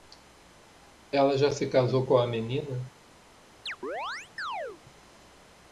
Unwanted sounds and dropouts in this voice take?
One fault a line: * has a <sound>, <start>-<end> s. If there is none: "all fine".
* has a chirp, 3.7-4.8 s